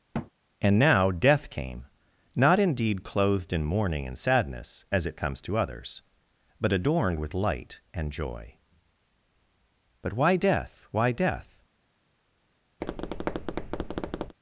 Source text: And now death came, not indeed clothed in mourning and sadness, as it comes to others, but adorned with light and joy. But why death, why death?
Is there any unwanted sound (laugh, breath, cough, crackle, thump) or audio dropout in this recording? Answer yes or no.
yes